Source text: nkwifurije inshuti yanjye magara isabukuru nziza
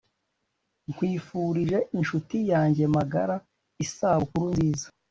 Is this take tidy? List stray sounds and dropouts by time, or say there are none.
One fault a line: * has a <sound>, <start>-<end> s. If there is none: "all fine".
all fine